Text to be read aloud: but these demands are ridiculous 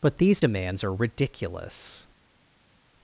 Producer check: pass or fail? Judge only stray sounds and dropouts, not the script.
pass